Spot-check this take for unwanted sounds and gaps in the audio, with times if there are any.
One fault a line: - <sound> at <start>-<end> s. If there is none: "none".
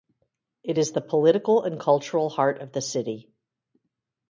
none